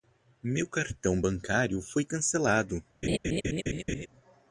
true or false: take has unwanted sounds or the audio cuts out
true